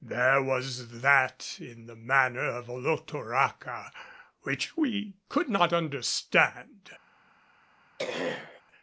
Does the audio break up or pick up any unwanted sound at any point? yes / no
yes